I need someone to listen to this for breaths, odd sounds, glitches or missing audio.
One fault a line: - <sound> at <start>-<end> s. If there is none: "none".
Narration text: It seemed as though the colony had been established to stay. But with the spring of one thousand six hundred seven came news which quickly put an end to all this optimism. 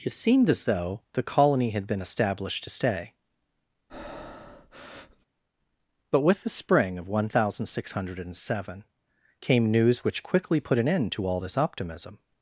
- breath at 3.9-5.3 s